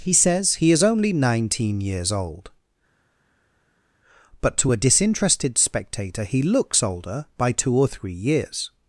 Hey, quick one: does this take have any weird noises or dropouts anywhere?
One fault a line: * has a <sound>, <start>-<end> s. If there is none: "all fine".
all fine